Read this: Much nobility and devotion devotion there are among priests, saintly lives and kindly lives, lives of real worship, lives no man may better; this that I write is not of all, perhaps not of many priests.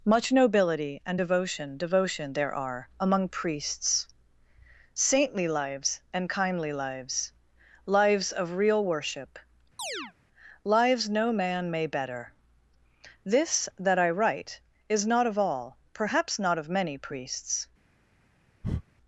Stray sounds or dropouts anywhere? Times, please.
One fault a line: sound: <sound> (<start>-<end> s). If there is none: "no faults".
sound: chirp (9.8-10.1 s)
sound: breath (18.6-18.8 s)